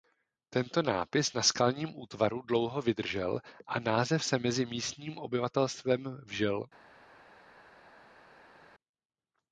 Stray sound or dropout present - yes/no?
no